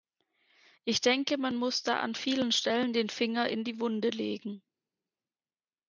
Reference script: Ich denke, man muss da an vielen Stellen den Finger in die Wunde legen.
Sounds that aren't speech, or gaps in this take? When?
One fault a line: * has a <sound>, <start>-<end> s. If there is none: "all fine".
all fine